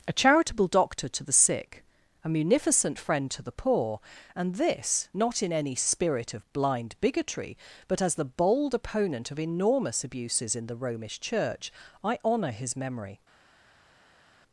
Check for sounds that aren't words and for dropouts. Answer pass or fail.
pass